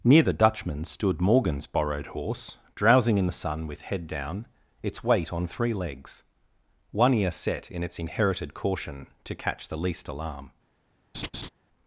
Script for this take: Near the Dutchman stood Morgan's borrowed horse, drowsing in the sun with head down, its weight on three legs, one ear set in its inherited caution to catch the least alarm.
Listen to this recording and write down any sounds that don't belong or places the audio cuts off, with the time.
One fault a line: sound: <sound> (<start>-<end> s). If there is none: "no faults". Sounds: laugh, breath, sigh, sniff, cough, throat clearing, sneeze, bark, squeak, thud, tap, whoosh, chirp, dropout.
sound: laugh (11.1-11.5 s)